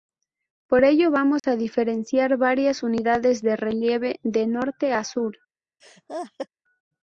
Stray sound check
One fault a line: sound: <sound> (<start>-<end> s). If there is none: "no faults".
sound: dropout (1.4-1.4 s)
sound: laugh (5.8-6.5 s)